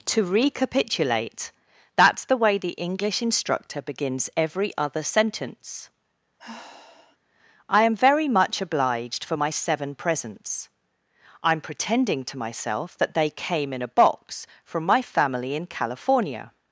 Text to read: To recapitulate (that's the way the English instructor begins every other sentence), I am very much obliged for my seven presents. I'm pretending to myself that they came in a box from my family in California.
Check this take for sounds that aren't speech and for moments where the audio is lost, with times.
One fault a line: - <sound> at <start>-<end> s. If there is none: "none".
- sigh at 6.4-7.2 s